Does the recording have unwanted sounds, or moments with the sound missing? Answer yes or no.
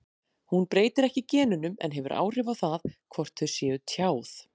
no